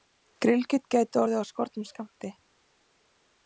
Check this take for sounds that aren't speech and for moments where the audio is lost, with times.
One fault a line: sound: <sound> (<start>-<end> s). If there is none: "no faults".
no faults